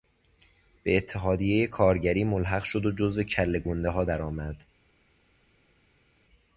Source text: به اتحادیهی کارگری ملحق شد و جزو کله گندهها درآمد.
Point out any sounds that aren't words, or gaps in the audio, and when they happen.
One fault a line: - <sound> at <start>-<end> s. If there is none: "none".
none